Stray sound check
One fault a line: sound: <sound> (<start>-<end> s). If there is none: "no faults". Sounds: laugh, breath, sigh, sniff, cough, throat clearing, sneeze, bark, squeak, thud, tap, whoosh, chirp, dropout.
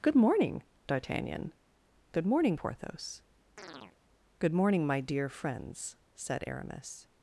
sound: chirp (3.6-4.0 s)